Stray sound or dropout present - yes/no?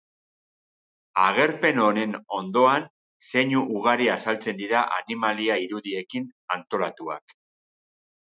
no